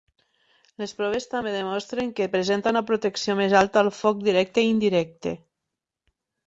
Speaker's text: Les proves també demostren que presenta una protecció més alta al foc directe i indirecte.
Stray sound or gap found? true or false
false